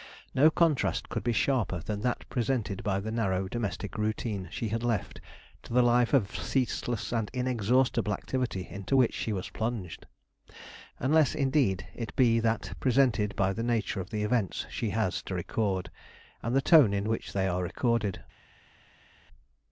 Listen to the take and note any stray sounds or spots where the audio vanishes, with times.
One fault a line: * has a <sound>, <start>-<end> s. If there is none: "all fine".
all fine